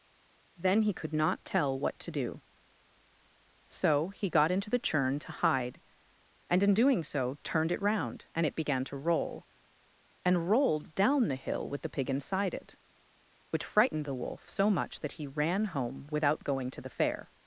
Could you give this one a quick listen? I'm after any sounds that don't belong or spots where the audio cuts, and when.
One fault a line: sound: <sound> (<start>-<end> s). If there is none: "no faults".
no faults